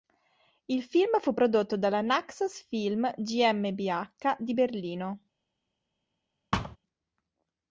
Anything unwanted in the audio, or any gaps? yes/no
yes